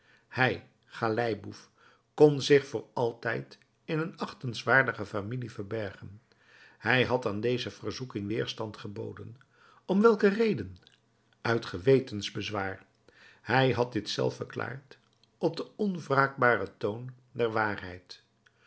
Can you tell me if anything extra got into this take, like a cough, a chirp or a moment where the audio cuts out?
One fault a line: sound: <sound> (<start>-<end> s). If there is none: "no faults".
no faults